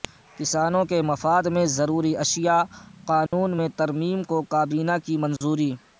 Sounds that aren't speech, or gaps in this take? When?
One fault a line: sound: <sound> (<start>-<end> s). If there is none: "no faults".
sound: dropout (3.3-3.3 s)
sound: dropout (5.4-5.4 s)